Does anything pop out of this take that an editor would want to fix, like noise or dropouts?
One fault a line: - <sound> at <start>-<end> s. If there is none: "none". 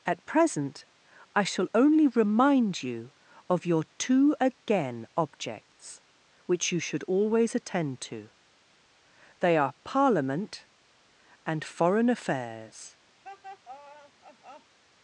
- laugh at 13.2-14.8 s